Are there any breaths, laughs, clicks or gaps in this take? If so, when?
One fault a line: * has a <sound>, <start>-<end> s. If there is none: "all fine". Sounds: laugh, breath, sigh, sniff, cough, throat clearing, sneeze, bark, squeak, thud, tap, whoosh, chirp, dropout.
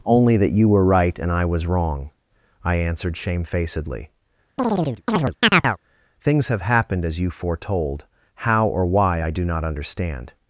* has a chirp, 4.6-5.8 s